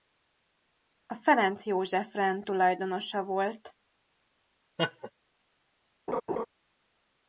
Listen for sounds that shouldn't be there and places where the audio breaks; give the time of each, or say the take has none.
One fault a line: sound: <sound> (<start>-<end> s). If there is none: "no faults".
sound: laugh (4.8-5.1 s)
sound: laugh (6.1-6.5 s)